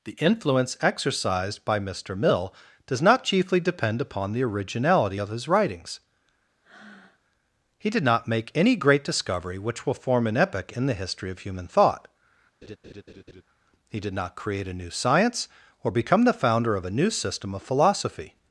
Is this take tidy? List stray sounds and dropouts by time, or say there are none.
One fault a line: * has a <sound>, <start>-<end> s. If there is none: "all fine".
* has a breath, 6.6-7.2 s
* has a laugh, 12.6-13.4 s